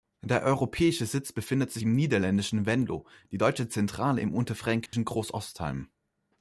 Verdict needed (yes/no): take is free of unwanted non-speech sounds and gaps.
no